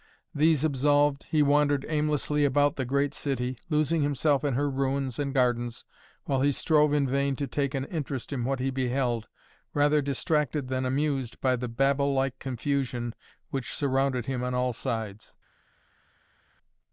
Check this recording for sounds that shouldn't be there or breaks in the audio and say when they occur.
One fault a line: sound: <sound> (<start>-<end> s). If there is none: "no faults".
no faults